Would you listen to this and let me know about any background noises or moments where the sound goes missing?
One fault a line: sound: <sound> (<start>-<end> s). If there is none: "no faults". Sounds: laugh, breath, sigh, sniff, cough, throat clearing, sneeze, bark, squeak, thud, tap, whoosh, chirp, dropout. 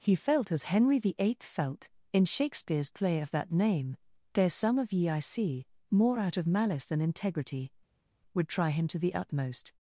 no faults